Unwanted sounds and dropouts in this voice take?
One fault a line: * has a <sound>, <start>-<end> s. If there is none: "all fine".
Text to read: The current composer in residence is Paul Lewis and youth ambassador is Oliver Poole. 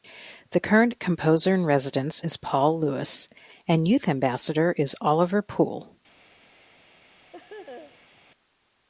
* has a laugh, 7.3-8.1 s